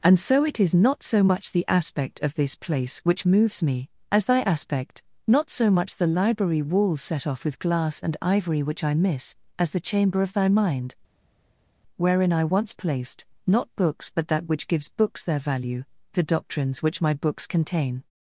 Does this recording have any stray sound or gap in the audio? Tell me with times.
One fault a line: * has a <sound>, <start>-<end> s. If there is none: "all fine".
all fine